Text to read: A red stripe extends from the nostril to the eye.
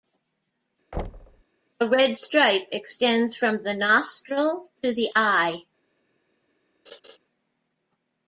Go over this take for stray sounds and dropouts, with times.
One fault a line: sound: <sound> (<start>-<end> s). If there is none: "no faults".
sound: thud (0.9-1.4 s)
sound: laugh (6.9-7.2 s)